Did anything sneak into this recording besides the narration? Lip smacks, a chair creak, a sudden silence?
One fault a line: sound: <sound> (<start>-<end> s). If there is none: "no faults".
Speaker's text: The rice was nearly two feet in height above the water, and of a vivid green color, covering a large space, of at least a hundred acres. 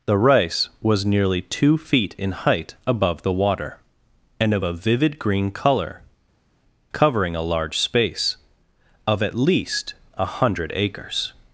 no faults